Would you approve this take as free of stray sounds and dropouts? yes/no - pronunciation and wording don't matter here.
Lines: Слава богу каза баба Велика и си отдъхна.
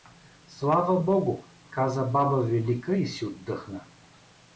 yes